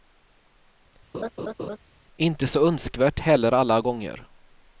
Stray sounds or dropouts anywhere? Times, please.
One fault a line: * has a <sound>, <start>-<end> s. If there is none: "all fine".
* has a laugh, 1.1-1.8 s